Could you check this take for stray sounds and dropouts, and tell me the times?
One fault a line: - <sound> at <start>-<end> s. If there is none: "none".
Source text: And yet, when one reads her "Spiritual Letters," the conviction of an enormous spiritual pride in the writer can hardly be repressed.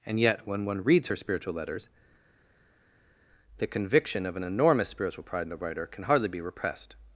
none